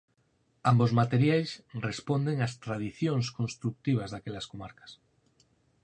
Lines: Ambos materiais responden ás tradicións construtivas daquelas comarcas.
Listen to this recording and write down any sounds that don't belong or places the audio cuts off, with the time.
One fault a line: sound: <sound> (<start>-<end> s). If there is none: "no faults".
no faults